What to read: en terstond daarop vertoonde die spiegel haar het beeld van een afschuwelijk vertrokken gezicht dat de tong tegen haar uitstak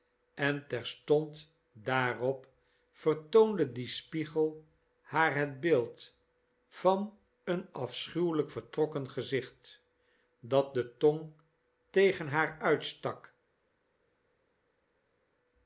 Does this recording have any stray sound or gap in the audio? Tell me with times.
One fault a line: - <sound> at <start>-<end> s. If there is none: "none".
none